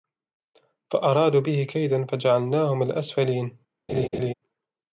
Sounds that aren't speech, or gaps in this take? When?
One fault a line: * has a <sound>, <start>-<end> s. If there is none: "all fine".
* has a laugh, 3.9-4.3 s